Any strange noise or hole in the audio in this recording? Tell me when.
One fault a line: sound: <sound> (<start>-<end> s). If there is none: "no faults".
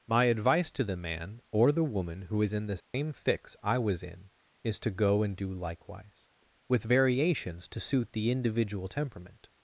sound: dropout (2.8-2.9 s)